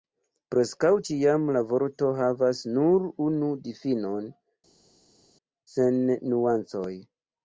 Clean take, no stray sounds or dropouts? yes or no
yes